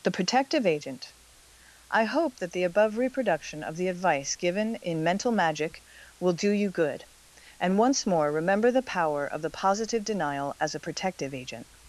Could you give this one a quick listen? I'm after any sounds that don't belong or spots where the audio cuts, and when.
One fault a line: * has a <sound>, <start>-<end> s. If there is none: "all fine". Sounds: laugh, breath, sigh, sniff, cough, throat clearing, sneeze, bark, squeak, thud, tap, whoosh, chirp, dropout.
all fine